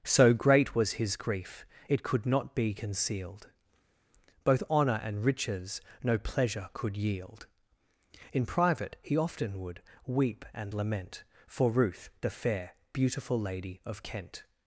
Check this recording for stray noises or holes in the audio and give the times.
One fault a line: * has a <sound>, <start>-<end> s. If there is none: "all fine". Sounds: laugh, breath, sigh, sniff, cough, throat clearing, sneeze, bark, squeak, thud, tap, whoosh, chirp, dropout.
all fine